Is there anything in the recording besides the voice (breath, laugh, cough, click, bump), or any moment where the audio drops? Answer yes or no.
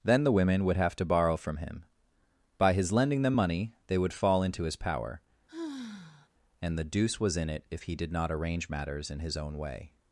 yes